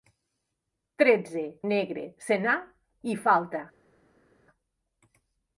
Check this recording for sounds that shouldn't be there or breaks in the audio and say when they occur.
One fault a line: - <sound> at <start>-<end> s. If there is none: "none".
none